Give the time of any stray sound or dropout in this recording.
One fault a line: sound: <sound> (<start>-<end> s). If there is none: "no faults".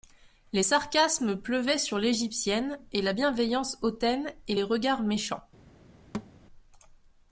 sound: thud (6.1-6.3 s)